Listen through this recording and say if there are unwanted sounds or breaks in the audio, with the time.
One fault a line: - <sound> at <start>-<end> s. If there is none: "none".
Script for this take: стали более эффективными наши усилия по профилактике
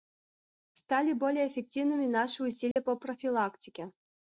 - dropout at 2.7-2.8 s